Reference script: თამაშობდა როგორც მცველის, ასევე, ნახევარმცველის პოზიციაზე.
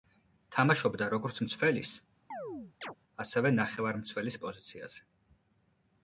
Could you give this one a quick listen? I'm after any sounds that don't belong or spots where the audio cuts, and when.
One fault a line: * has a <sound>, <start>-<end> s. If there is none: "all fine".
* has a chirp, 2.3-3.0 s